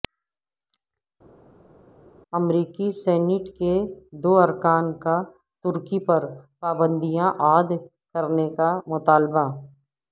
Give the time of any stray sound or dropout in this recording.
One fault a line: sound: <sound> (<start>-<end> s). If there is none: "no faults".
no faults